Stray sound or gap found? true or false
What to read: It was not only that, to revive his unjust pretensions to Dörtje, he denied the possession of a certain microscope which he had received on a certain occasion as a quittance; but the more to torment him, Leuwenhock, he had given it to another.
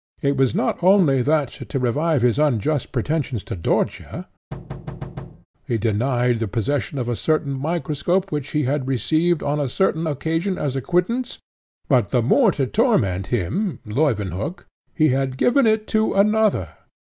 true